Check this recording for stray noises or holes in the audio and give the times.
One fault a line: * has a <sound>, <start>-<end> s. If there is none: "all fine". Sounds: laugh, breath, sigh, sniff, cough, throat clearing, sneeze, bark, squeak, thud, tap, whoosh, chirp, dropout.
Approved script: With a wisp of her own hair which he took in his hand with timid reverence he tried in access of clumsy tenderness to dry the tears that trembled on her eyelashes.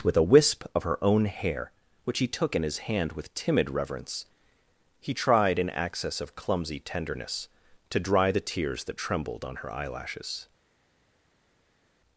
all fine